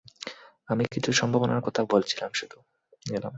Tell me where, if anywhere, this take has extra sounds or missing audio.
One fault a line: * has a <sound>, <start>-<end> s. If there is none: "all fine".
all fine